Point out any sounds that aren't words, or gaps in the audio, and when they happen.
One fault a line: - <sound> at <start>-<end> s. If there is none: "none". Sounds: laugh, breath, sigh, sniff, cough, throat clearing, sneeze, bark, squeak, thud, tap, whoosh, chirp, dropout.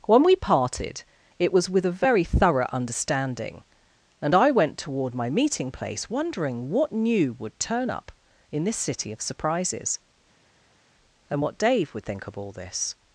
none